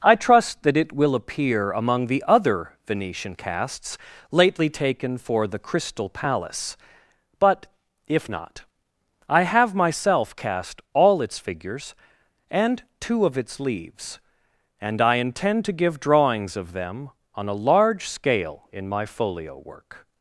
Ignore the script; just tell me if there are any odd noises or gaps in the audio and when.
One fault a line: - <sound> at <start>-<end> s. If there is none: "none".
none